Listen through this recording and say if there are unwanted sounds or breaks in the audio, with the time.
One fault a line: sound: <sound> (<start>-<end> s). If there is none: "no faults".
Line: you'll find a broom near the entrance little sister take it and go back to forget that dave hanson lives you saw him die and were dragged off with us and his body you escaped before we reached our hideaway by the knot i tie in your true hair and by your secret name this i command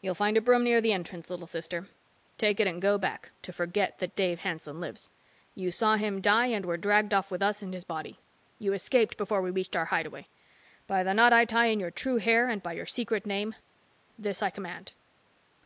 no faults